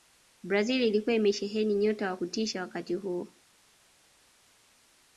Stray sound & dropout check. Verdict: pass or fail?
pass